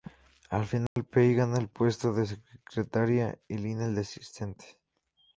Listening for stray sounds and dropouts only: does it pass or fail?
fail